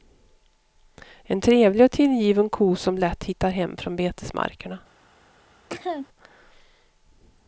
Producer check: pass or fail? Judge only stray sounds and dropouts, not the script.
fail